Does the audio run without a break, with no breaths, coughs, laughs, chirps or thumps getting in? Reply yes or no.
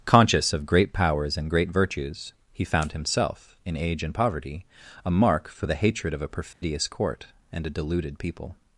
no